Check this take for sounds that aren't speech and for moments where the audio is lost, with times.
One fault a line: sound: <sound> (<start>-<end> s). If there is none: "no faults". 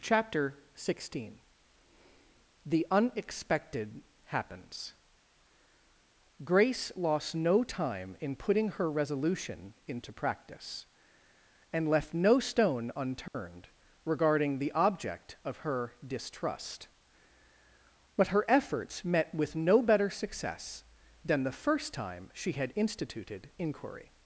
sound: dropout (13.3-13.3 s)